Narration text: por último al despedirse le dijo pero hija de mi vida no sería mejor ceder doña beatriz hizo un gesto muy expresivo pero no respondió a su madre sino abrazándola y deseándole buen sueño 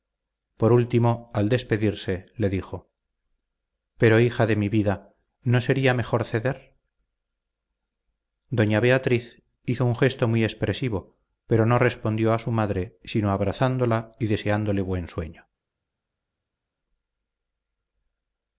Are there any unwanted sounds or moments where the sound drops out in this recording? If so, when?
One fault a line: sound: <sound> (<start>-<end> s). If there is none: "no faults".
no faults